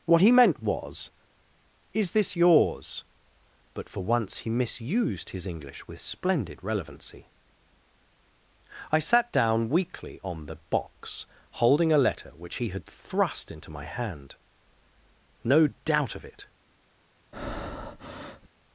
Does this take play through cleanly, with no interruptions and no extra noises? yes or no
no